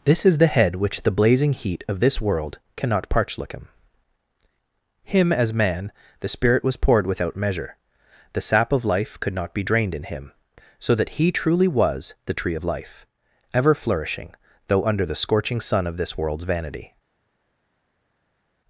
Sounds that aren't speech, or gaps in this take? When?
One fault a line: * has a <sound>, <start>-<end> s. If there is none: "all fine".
all fine